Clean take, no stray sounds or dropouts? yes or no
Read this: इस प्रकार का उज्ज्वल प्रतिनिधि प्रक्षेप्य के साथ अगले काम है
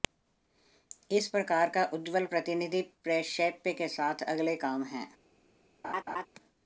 no